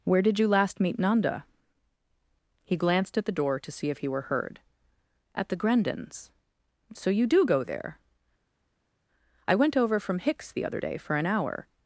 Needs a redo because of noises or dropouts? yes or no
no